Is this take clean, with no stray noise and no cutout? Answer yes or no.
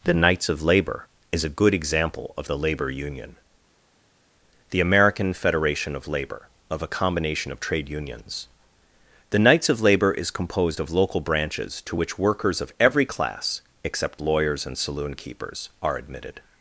yes